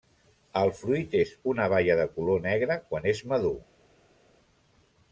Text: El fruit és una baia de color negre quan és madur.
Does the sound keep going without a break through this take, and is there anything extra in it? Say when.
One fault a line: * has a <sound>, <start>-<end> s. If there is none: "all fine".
all fine